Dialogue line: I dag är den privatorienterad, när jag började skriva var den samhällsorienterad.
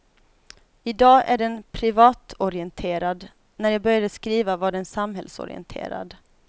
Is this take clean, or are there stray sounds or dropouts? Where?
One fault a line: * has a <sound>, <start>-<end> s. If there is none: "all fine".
all fine